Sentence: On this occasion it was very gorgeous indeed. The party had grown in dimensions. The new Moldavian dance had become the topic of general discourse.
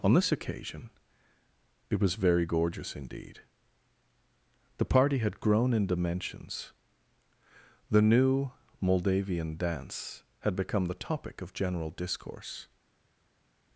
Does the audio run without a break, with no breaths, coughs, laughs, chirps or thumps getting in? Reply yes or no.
yes